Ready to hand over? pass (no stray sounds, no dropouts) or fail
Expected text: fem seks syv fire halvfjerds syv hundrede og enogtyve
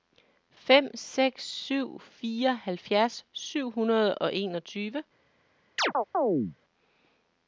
fail